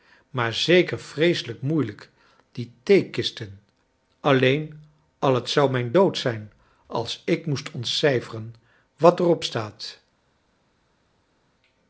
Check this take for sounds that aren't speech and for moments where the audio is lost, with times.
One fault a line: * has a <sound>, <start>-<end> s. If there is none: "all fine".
all fine